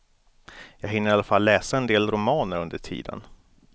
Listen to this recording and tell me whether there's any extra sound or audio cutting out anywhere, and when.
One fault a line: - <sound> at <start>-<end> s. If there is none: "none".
none